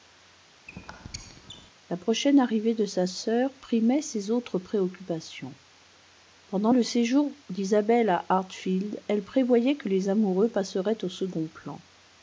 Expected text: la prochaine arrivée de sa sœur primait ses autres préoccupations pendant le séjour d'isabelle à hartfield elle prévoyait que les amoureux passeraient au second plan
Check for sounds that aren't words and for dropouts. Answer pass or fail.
fail